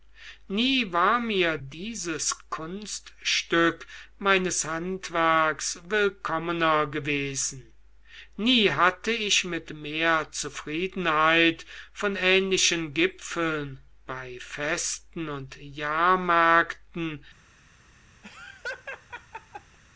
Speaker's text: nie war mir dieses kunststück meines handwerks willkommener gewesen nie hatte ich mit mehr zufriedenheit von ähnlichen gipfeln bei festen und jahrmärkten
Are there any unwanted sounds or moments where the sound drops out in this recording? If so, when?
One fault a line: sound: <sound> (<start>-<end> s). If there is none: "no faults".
sound: laugh (18.2-19.8 s)